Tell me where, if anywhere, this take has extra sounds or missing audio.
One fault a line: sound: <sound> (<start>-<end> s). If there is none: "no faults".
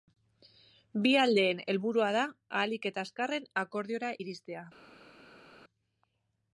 no faults